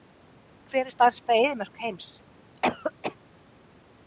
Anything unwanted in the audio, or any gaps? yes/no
yes